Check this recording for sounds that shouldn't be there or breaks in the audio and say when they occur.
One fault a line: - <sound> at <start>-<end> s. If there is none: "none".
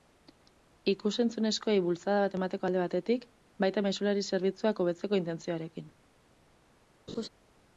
- laugh at 7.1-7.3 s